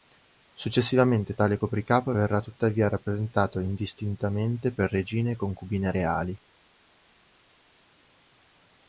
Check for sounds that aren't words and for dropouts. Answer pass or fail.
pass